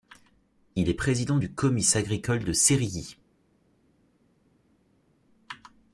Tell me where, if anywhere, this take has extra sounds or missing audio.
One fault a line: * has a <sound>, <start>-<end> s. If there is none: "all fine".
all fine